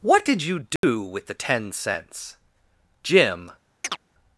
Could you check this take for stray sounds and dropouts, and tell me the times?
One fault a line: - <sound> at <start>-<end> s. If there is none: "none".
- dropout at 0.8-0.8 s
- chirp at 3.8-4.0 s